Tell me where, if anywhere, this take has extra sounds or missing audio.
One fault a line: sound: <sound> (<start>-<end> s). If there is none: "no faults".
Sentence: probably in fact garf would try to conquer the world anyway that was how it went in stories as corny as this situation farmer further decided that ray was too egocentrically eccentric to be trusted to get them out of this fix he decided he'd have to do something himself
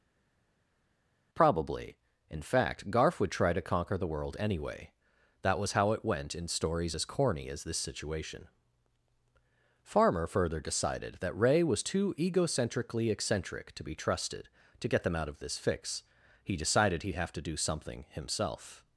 no faults